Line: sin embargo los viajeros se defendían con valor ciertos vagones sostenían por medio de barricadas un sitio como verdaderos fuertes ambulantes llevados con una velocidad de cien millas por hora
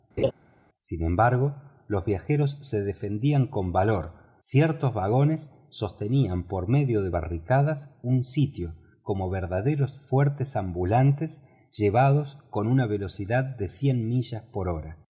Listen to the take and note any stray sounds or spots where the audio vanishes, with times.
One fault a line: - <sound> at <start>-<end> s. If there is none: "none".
- laugh at 0.2-0.3 s